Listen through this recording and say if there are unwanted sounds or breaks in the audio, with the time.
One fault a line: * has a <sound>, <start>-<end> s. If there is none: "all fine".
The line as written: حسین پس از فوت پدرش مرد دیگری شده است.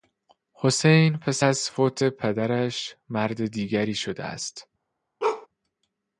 * has a bark, 5.2-5.5 s